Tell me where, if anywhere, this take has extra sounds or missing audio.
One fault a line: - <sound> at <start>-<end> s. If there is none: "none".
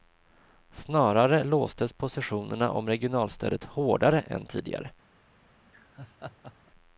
- laugh at 5.6-6.7 s